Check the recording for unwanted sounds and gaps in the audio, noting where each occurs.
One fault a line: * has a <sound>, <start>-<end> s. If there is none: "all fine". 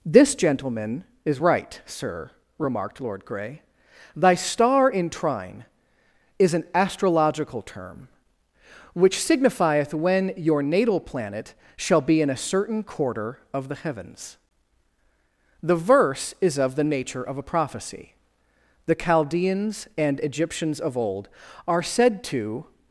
all fine